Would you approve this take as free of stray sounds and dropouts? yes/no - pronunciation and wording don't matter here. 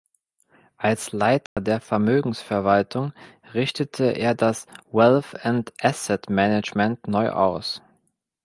no